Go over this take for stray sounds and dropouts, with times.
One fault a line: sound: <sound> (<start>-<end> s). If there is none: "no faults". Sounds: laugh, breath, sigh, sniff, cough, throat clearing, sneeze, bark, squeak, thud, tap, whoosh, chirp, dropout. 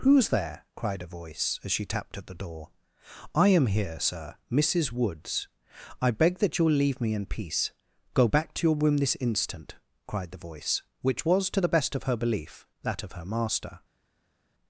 no faults